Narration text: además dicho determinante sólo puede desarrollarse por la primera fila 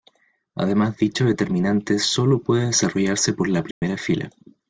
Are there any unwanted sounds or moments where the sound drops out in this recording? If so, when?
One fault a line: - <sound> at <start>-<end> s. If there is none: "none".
- dropout at 3.7-3.8 s